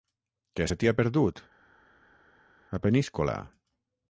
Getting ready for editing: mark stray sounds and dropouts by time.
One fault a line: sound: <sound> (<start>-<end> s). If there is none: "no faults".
no faults